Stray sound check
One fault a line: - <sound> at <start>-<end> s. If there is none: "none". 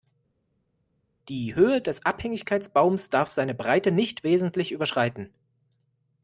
none